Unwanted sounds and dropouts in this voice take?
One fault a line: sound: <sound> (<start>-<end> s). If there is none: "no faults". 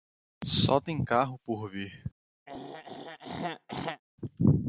sound: throat clearing (2.5-4.0 s)